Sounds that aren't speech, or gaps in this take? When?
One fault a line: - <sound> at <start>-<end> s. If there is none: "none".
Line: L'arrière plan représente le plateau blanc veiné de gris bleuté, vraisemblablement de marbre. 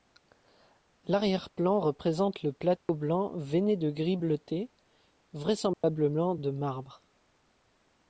- dropout at 2.8-2.9 s
- dropout at 5.7-5.8 s